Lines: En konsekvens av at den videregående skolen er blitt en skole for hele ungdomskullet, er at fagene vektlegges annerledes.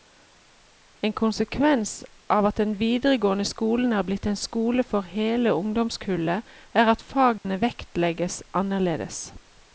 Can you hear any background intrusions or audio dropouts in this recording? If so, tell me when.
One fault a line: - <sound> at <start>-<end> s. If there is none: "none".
- dropout at 7.4-7.4 s